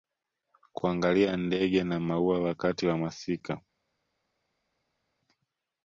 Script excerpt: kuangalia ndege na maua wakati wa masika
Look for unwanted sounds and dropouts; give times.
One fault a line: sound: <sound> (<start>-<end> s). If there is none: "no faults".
no faults